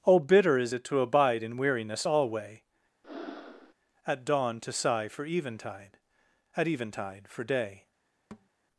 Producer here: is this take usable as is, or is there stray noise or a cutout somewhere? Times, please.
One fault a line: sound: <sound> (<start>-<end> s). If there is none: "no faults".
sound: breath (3.0-3.7 s)
sound: thud (8.3-8.5 s)